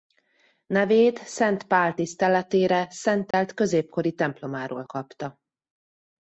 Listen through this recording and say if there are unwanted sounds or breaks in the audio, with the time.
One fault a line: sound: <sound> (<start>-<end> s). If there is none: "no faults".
sound: dropout (3.3-3.3 s)